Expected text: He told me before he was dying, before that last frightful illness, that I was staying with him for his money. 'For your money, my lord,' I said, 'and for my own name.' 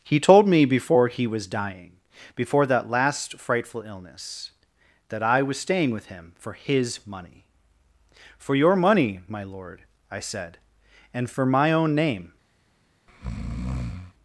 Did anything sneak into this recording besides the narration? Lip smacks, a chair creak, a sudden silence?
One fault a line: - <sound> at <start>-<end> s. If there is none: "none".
- breath at 13.1-14.1 s